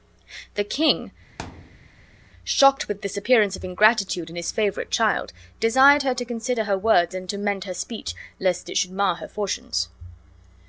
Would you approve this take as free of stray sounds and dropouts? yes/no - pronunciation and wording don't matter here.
no